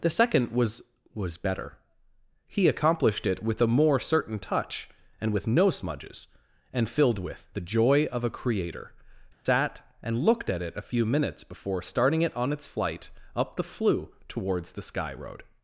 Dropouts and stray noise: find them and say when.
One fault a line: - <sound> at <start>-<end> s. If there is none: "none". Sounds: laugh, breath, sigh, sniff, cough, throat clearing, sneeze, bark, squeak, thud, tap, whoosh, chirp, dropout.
- dropout at 9.3-9.5 s